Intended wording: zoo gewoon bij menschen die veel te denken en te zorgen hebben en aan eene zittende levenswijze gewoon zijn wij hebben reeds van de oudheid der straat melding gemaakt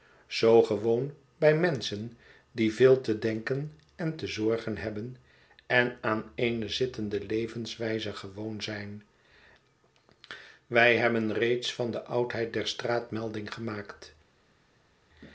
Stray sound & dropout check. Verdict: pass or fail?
pass